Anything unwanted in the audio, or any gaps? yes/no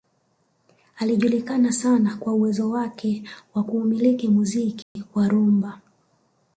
yes